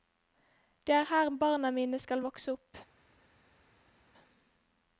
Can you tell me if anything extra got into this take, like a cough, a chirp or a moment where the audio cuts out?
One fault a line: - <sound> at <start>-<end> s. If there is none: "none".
none